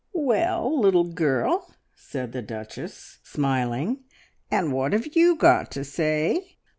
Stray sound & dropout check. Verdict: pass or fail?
pass